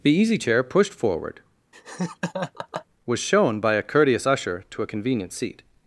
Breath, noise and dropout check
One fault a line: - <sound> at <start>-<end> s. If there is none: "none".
- laugh at 1.7-2.9 s